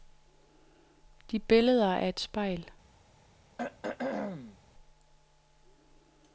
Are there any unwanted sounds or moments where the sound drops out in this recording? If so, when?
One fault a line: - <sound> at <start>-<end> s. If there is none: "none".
- throat clearing at 3.6-4.6 s